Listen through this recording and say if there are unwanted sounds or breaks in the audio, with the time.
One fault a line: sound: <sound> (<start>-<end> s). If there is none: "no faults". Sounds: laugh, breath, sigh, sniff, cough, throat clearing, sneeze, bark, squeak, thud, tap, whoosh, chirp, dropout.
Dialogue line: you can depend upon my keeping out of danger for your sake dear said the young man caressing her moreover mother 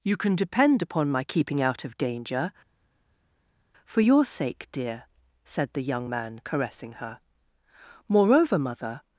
no faults